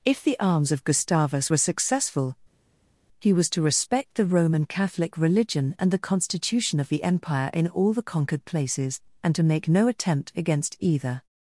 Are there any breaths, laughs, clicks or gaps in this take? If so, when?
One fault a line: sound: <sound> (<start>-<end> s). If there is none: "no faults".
no faults